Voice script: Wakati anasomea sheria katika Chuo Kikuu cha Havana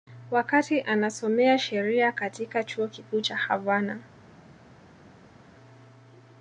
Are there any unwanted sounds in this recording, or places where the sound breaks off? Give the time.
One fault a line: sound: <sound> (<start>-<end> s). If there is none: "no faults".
no faults